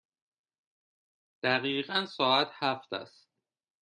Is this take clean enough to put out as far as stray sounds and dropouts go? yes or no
yes